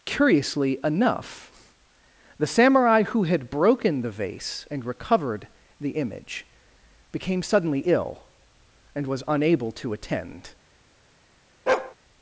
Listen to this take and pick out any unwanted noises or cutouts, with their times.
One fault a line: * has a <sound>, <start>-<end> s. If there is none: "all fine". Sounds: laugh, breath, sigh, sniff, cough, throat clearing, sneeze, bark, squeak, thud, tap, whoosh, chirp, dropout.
* has a bark, 11.7-11.9 s